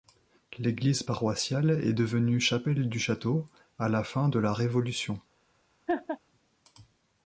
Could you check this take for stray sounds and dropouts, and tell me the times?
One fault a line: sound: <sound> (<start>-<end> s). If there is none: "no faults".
sound: laugh (5.9-6.2 s)